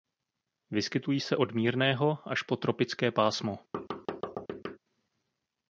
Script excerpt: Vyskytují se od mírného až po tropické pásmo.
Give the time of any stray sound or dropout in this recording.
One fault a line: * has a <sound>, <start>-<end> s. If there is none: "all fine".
* has a thud, 3.7-4.8 s